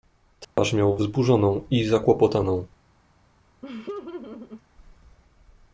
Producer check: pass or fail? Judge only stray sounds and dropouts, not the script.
fail